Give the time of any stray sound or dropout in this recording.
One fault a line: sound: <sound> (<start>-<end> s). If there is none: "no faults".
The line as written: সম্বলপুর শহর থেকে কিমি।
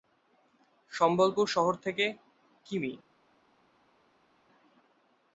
no faults